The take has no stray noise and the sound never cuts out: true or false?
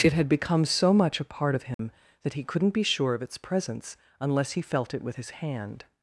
false